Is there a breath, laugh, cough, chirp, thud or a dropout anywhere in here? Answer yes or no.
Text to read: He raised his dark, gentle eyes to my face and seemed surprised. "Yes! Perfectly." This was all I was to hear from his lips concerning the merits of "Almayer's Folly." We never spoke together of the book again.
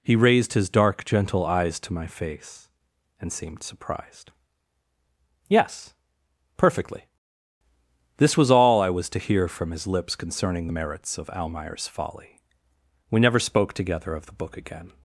no